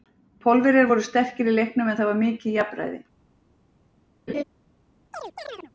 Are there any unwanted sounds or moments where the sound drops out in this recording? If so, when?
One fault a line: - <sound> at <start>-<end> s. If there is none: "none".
- laugh at 4.3-4.4 s
- chirp at 5.1-5.7 s